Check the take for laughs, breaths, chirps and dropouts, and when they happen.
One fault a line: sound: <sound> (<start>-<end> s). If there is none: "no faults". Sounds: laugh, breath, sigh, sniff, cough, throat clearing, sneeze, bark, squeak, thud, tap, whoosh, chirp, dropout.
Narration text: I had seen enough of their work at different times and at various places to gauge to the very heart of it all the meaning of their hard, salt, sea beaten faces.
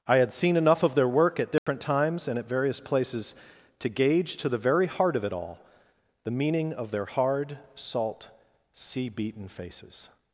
sound: dropout (1.6-1.7 s)